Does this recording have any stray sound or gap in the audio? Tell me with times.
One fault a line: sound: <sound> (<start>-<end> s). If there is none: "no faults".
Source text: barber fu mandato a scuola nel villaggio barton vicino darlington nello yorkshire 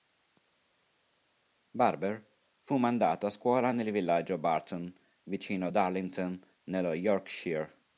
no faults